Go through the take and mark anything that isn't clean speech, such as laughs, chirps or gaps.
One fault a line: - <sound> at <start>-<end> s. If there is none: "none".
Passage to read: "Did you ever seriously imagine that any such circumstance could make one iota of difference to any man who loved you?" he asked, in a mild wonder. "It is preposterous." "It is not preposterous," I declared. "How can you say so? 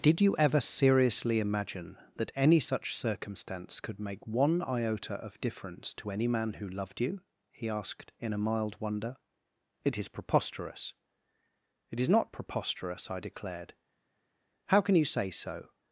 none